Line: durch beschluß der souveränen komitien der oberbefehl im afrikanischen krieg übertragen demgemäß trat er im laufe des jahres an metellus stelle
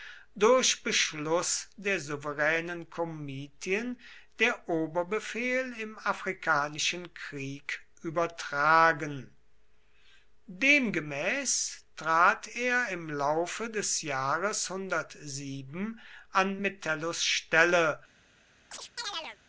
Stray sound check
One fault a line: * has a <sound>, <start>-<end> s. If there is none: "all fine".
* has a chirp, 18.7-19.4 s